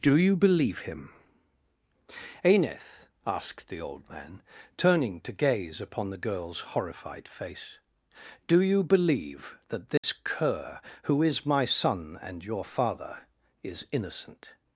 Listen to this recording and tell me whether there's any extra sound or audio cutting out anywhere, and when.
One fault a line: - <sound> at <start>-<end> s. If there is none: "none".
- dropout at 10.0-10.0 s